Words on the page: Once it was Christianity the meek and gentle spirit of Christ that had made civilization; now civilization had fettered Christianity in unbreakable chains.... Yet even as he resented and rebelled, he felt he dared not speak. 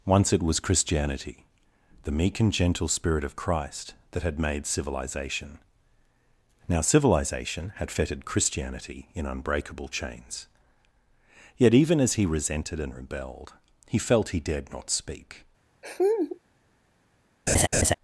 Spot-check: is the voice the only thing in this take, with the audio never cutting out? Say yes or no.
no